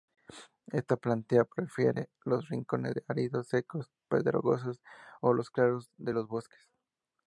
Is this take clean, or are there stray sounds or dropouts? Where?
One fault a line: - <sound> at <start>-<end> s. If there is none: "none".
none